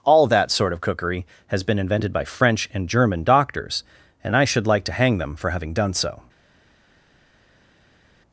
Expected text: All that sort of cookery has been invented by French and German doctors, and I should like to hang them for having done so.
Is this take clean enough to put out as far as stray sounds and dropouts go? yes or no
yes